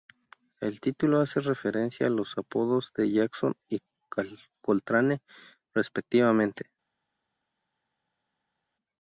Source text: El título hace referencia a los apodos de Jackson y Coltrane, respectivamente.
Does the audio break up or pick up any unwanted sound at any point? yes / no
no